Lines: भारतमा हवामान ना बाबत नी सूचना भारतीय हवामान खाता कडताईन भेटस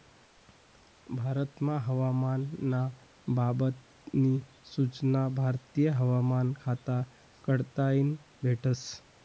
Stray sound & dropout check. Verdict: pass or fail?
pass